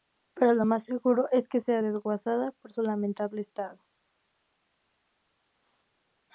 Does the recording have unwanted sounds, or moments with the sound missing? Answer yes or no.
no